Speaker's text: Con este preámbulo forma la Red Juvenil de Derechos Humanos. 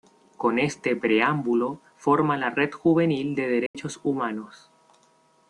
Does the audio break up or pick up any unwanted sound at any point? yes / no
yes